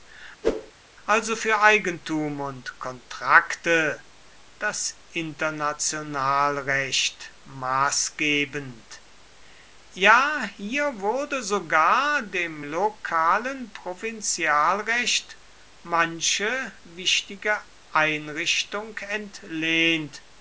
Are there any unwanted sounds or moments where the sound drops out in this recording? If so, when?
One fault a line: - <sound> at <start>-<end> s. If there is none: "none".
- whoosh at 0.4-0.7 s